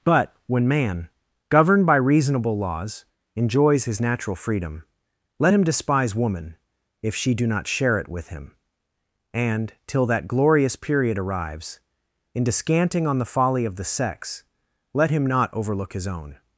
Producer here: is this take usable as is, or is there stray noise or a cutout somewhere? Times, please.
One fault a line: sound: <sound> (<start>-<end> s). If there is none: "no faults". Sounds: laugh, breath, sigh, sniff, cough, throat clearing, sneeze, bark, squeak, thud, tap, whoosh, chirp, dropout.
no faults